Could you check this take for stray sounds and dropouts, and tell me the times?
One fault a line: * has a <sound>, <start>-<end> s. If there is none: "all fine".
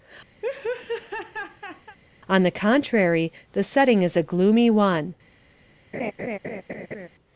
* has a laugh, 0.4-2.0 s
* has a laugh, 5.9-7.1 s